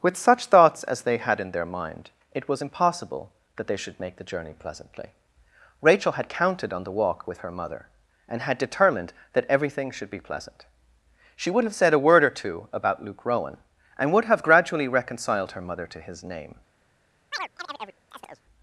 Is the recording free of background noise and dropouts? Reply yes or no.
no